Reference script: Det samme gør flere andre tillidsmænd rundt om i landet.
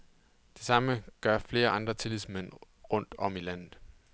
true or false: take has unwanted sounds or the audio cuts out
false